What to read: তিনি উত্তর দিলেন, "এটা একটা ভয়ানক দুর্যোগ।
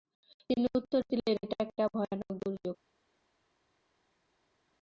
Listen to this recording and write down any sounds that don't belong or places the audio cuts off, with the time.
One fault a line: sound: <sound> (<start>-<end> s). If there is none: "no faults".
no faults